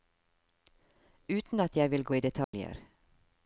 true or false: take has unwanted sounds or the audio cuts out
true